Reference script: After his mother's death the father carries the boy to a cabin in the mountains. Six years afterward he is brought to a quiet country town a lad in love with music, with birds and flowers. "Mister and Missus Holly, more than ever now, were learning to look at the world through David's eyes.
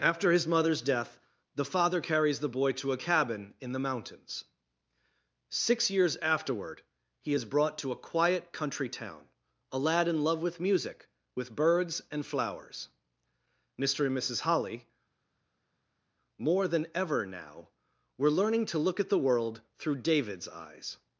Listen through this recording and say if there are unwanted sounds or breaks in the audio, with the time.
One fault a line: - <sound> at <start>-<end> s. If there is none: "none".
none